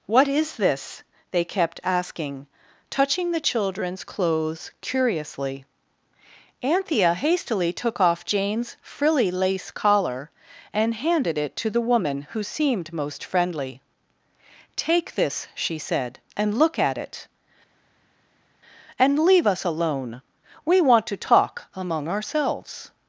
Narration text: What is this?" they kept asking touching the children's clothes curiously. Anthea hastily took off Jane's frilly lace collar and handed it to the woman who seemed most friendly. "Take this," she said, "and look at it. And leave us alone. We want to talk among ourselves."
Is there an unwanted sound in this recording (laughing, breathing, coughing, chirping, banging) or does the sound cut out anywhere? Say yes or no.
no